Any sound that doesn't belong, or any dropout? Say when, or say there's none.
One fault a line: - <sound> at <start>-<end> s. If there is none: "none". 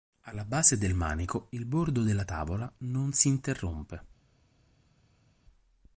none